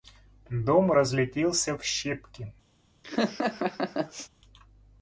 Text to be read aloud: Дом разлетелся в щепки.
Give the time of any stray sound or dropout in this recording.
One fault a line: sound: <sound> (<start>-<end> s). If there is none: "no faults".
sound: laugh (3.0-4.3 s)